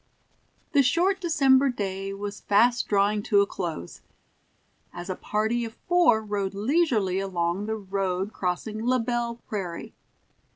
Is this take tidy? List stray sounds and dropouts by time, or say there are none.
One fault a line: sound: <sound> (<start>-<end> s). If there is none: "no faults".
no faults